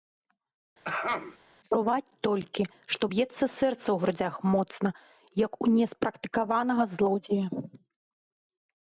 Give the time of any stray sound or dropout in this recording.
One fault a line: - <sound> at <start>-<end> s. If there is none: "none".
- throat clearing at 0.8-1.4 s